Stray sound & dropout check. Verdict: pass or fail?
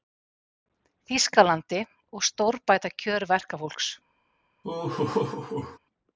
fail